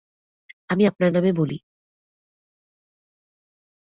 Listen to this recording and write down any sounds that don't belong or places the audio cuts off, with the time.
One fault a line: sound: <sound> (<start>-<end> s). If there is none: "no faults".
no faults